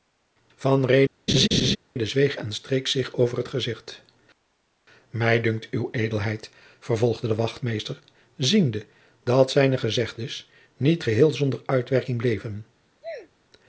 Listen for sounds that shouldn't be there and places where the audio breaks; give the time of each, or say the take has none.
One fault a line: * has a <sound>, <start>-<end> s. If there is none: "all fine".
* has a laugh, 1.3-1.8 s
* has a sneeze, 13.0-13.3 s